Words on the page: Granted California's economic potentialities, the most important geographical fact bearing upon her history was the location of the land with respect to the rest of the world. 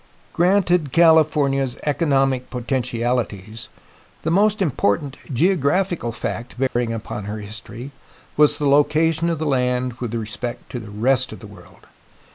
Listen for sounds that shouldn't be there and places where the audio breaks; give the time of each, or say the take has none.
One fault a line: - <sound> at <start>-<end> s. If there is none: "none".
- dropout at 6.7-6.8 s